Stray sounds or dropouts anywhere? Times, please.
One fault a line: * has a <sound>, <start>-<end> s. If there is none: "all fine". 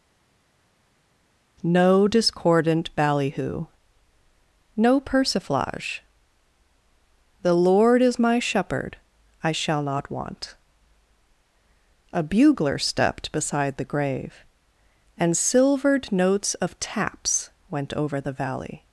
all fine